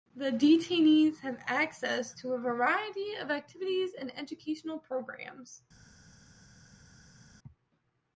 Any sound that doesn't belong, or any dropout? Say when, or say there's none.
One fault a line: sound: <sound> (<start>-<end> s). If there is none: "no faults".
no faults